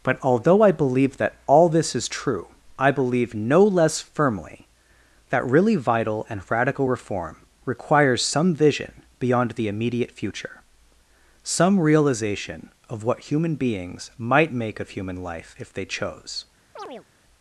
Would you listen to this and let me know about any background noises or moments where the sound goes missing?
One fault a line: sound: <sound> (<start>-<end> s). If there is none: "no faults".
sound: chirp (16.8-17.1 s)